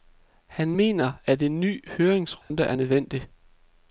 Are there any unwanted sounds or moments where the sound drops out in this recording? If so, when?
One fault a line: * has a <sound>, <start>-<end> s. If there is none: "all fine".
* has a dropout, 2.4-2.5 s